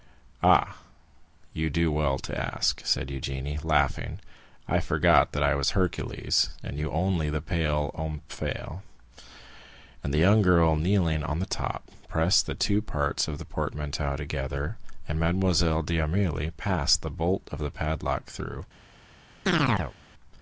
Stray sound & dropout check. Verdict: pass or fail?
fail